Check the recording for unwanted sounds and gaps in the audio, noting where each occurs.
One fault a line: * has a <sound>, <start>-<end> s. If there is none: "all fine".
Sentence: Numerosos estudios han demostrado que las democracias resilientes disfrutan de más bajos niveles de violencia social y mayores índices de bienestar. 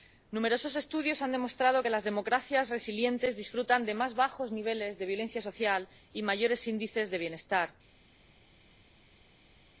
all fine